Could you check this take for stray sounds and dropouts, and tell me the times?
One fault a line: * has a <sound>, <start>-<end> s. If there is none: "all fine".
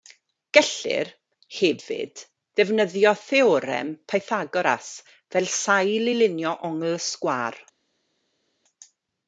all fine